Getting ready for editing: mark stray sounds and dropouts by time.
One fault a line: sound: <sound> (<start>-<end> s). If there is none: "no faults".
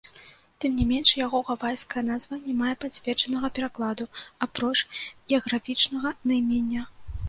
no faults